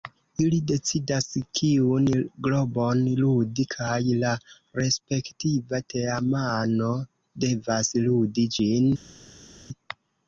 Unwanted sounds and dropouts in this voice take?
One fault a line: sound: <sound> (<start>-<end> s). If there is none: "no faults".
no faults